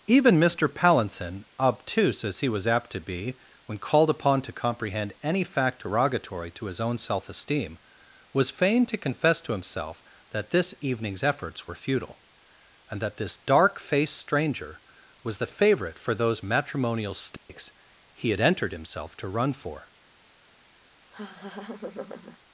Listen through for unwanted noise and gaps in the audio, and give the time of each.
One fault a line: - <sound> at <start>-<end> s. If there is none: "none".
- dropout at 17.4-17.5 s
- laugh at 21.1-22.4 s